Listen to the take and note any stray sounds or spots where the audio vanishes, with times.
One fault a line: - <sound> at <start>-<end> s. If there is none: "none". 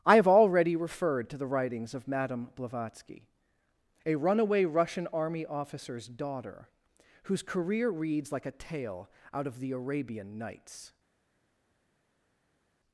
none